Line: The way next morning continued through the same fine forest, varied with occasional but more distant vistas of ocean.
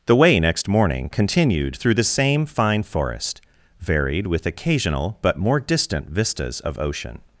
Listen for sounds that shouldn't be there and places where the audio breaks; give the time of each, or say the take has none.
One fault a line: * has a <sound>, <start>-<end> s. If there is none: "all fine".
all fine